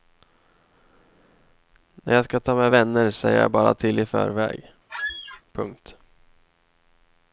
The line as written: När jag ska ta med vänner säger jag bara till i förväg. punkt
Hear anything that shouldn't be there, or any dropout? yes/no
yes